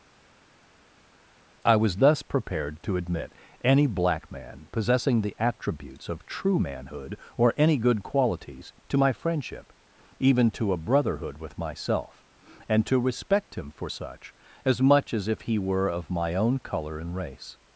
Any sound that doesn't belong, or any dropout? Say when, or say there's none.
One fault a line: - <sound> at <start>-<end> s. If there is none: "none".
none